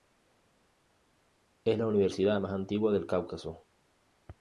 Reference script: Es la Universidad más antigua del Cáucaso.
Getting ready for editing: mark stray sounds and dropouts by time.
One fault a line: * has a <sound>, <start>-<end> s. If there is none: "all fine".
all fine